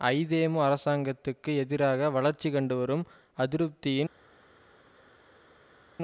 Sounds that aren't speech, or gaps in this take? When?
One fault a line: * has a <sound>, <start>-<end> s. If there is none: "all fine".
all fine